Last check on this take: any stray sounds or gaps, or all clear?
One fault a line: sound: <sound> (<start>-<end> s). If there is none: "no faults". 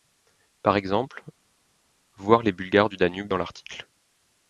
no faults